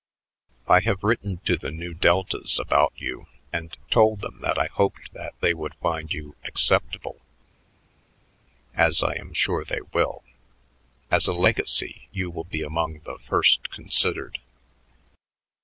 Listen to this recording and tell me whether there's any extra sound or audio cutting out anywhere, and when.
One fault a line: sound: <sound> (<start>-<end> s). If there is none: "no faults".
no faults